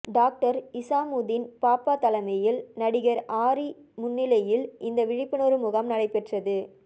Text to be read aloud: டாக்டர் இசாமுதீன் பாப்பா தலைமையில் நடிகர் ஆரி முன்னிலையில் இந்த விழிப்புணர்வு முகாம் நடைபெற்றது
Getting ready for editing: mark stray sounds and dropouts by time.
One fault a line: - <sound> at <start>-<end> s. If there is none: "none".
none